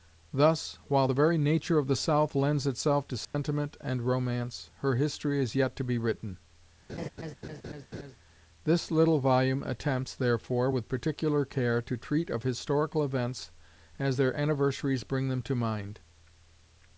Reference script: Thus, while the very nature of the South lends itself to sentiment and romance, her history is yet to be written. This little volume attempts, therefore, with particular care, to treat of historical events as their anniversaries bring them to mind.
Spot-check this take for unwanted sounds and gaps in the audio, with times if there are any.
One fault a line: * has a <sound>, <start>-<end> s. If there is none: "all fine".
* has a dropout, 3.2-3.3 s
* has a laugh, 6.9-8.2 s